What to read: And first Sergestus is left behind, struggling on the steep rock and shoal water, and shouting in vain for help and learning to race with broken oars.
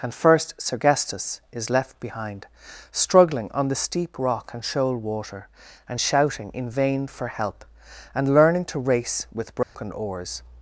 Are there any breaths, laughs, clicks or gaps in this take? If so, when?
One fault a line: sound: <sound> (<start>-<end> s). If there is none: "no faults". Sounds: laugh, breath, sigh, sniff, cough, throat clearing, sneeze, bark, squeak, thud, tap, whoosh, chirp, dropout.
sound: dropout (9.6-9.8 s)